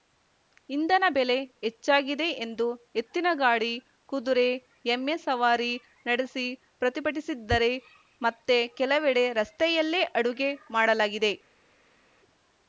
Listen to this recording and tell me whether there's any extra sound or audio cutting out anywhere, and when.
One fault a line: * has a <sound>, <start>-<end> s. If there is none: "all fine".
all fine